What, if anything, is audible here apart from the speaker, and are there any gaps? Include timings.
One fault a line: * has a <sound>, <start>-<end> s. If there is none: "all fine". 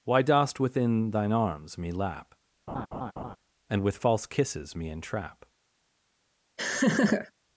* has a laugh, 2.7-3.4 s
* has a laugh, 6.6-7.3 s